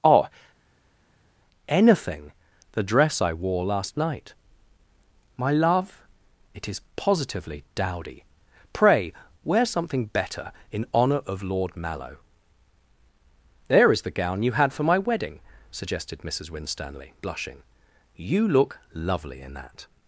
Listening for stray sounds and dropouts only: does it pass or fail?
pass